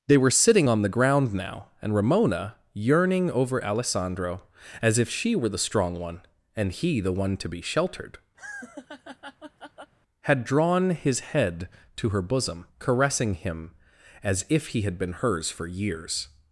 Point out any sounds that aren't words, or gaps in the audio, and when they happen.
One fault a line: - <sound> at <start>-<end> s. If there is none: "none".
- laugh at 8.4-9.9 s